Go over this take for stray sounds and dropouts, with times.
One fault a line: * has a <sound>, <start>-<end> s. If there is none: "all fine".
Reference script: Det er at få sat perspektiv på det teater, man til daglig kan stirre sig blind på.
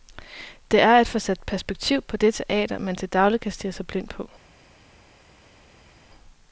all fine